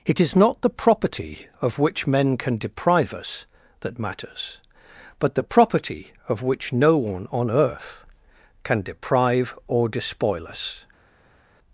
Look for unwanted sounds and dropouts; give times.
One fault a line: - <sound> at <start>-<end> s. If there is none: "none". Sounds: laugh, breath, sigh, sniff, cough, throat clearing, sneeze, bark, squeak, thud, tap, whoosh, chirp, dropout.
none